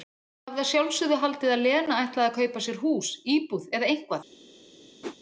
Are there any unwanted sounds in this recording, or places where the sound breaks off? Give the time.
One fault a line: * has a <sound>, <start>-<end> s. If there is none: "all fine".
* has a whoosh, 5.0-5.2 s